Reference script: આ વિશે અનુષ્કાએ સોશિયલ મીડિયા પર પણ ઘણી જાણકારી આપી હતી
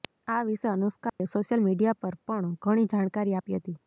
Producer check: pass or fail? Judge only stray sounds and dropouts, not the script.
fail